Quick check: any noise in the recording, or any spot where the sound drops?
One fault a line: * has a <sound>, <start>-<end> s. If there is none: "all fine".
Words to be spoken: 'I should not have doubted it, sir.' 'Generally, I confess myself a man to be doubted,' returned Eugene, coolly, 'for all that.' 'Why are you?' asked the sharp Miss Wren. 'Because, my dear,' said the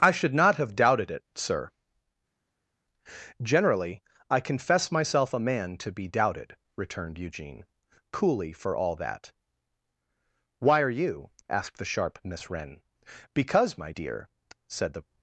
all fine